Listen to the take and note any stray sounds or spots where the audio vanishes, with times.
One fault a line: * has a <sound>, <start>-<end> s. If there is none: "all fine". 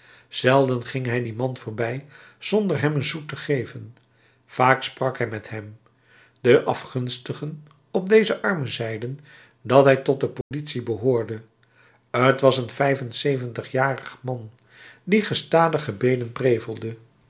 * has a dropout, 10.4-10.5 s